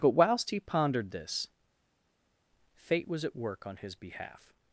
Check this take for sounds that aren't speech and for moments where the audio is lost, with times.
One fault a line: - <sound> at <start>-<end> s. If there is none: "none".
none